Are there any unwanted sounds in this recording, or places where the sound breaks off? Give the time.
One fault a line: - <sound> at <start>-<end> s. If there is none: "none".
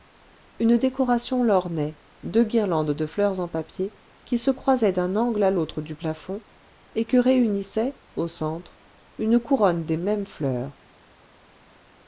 none